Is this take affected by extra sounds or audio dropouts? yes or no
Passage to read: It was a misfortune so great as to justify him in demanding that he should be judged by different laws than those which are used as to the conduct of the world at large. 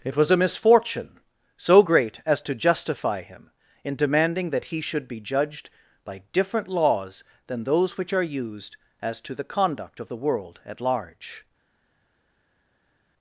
no